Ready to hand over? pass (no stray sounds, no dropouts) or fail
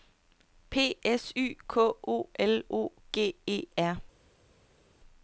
pass